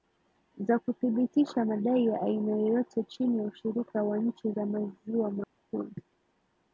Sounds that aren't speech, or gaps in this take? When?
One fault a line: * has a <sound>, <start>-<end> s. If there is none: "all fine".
* has a dropout, 5.4-5.6 s